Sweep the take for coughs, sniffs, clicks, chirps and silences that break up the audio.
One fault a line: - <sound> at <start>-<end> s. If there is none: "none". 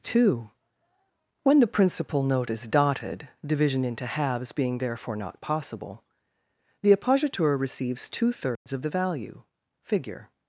- dropout at 8.6-8.7 s